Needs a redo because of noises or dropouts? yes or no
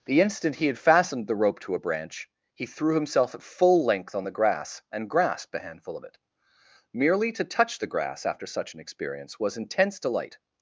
no